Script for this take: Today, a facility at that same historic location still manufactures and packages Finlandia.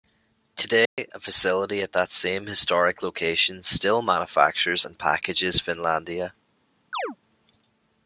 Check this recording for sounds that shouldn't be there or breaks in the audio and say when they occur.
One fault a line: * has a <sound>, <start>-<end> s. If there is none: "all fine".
* has a dropout, 0.9-1.0 s
* has a chirp, 6.9-7.2 s